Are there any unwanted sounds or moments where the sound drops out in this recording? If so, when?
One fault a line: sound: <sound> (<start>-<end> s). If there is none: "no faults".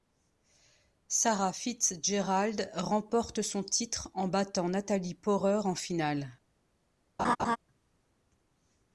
sound: laugh (7.2-7.6 s)